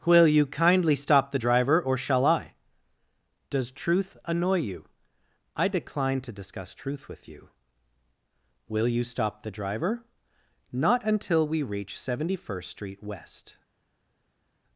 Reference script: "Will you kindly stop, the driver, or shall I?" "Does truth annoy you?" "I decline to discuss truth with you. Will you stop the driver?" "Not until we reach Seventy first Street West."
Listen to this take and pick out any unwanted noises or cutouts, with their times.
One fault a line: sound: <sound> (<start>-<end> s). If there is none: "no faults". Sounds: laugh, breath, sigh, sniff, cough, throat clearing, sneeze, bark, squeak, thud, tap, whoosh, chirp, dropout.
no faults